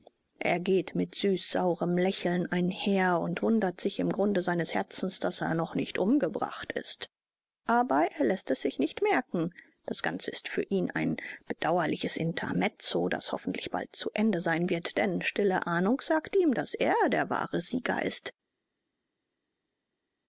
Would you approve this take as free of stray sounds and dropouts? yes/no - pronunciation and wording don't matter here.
yes